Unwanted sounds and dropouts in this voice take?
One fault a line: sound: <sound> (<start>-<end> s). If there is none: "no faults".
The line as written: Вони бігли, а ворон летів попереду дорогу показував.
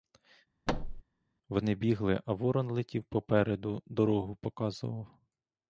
sound: thud (0.7-1.0 s)